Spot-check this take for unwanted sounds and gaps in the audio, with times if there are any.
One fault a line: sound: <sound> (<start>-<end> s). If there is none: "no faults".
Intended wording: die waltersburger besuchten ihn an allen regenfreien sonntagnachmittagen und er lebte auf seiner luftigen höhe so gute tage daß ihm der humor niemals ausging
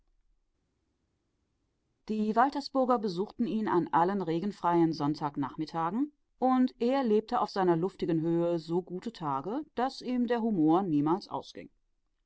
no faults